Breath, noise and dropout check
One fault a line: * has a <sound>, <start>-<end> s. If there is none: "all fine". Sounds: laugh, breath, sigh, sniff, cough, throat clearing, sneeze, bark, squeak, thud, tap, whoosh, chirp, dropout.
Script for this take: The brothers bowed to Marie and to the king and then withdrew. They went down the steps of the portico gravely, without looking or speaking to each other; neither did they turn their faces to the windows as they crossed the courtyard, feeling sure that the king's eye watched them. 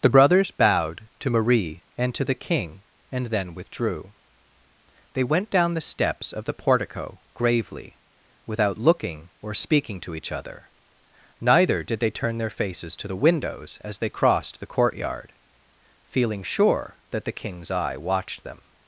all fine